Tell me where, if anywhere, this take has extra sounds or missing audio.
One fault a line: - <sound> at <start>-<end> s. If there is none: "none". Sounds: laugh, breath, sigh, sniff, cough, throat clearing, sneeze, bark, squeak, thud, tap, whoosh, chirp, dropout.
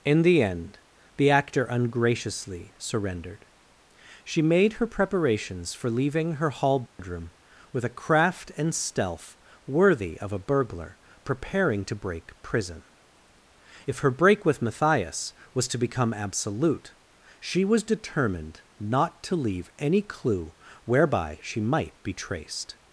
- dropout at 6.9-7.0 s